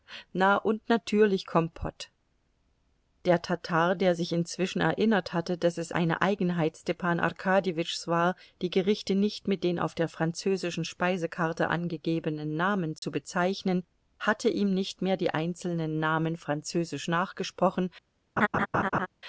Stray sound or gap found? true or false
true